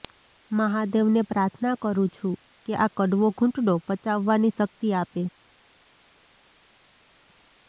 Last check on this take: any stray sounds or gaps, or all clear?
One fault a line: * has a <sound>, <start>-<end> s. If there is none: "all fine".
all fine